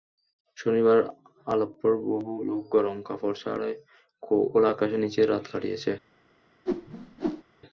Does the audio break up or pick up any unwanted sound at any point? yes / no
yes